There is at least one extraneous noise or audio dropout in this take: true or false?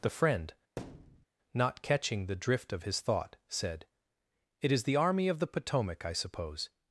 true